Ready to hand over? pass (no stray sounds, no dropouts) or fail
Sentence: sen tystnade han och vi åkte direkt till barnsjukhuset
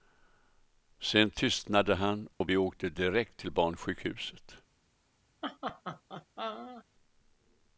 fail